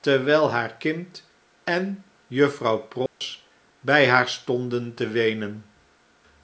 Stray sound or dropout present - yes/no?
yes